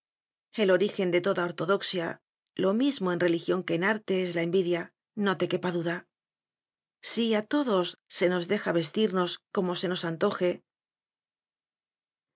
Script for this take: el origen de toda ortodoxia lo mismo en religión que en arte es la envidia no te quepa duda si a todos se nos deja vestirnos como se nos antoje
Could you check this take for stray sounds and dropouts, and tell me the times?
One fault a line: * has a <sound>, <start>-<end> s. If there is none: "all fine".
all fine